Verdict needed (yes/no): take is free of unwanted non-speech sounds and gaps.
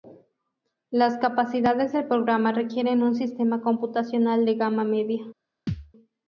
no